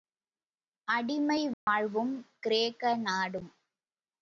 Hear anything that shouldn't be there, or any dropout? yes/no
yes